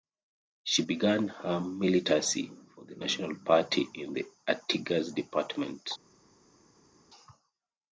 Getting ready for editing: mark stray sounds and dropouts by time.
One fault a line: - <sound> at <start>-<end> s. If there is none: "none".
none